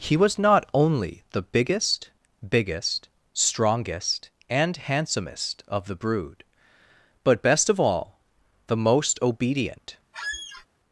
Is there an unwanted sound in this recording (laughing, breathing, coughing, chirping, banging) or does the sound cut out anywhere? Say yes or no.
yes